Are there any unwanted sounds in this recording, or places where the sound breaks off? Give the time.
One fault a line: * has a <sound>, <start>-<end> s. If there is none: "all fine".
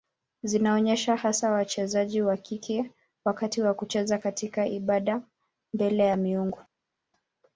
all fine